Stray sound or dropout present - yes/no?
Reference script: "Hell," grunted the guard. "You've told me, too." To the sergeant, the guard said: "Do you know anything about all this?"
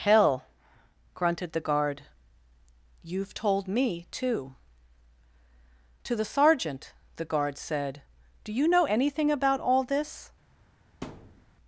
yes